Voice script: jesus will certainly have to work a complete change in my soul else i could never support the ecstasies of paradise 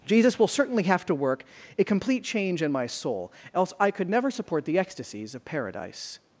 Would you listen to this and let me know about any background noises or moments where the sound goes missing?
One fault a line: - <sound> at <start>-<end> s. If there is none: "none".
none